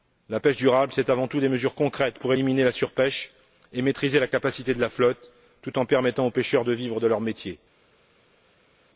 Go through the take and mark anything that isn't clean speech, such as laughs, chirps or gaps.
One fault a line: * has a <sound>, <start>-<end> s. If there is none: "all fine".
all fine